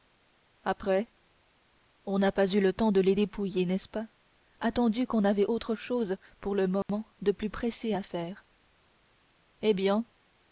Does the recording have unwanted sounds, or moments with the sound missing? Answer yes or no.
yes